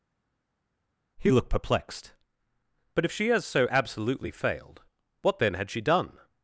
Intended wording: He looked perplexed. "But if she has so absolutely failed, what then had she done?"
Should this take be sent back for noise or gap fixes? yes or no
no